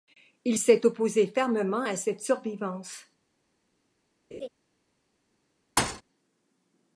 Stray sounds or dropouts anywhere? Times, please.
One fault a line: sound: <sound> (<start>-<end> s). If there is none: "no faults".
sound: laugh (4.3-4.5 s)
sound: thud (5.8-6.0 s)